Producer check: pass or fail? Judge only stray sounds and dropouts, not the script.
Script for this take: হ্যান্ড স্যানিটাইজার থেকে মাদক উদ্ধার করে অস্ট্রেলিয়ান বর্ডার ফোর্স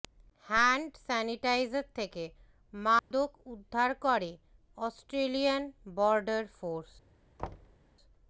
fail